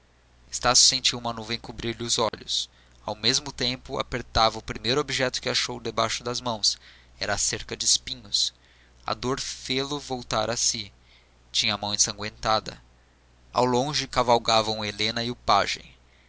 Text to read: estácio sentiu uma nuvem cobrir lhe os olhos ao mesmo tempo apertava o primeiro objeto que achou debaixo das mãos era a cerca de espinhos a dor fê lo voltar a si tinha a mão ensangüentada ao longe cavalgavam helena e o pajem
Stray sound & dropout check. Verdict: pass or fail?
fail